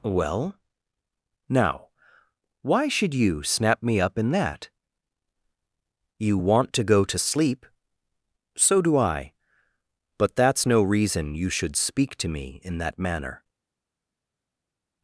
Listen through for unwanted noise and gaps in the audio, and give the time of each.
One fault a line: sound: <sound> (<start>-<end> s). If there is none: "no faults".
no faults